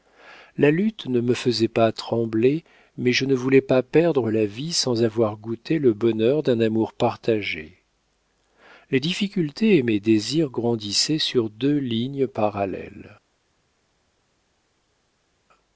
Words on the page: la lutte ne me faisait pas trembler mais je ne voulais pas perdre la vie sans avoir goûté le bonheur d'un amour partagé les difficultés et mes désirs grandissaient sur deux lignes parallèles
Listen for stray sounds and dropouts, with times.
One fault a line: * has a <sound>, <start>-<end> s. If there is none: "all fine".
all fine